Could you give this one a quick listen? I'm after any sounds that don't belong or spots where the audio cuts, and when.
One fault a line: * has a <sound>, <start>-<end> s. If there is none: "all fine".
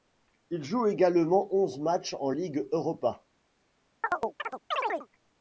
* has a chirp, 4.0-5.1 s